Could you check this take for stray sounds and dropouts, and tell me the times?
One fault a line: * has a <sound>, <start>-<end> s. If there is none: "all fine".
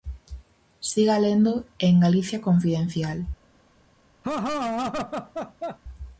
* has a laugh, 4.2-5.8 s